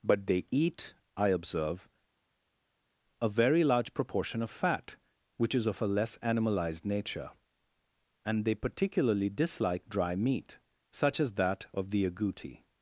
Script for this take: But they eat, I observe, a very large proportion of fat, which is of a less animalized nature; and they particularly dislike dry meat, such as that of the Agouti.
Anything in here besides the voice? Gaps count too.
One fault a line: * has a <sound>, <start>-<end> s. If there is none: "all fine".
all fine